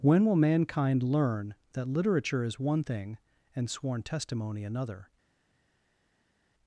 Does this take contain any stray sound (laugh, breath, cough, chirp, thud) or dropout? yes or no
no